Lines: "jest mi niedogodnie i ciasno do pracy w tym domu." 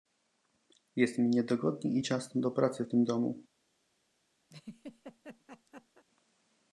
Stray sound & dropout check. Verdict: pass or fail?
fail